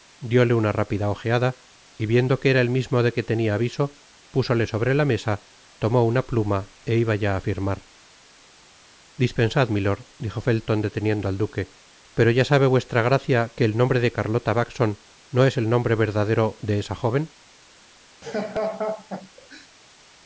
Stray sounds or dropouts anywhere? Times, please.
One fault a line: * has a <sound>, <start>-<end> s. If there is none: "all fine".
* has a laugh, 18.2-19.7 s